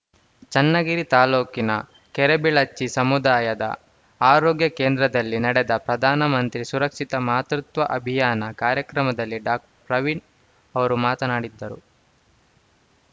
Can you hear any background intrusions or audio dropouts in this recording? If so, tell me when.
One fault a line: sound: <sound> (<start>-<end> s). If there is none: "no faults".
sound: dropout (9.7-9.8 s)